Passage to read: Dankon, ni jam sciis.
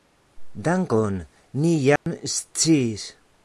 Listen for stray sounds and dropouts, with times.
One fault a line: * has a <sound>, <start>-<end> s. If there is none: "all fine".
* has a dropout, 2.0-2.1 s